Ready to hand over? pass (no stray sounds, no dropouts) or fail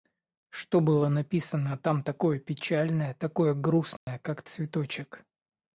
fail